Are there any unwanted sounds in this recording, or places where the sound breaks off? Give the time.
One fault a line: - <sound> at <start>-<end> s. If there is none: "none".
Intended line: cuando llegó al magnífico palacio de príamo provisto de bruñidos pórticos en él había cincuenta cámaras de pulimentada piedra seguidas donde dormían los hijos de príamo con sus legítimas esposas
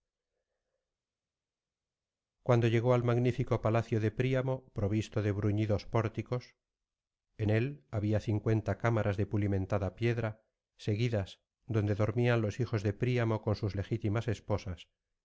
none